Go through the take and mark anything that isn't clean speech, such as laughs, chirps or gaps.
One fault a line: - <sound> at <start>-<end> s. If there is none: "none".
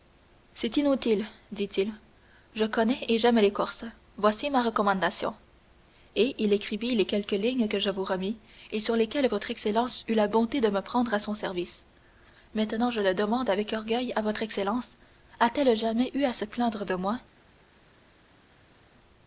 none